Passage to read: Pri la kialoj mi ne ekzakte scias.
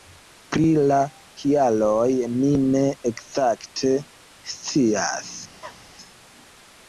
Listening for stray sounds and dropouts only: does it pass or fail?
fail